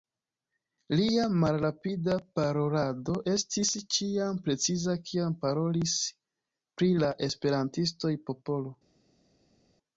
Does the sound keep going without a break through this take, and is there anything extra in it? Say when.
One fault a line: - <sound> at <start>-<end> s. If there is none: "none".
none